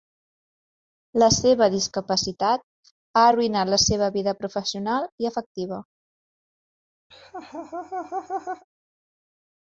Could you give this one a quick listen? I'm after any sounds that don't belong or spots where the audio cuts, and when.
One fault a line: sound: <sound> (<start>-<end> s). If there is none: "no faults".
sound: laugh (7.1-8.6 s)